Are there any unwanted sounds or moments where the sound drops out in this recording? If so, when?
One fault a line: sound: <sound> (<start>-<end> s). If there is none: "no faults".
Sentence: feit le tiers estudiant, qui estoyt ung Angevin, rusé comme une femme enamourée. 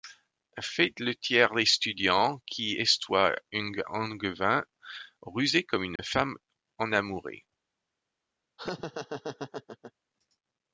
sound: dropout (6.0-6.0 s)
sound: laugh (8.6-9.9 s)